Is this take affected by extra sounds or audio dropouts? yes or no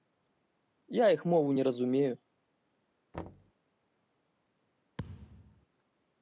yes